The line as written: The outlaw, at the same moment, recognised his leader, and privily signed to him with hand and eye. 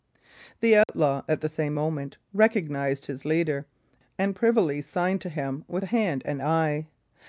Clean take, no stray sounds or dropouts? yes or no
no